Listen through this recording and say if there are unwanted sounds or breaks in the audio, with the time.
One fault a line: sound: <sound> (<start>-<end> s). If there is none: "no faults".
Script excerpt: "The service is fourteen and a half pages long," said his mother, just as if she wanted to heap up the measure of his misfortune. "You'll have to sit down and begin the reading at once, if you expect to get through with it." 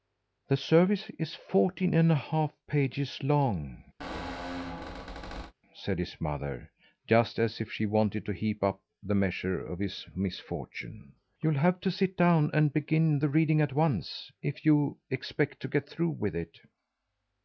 sound: squeak (4.0-5.5 s)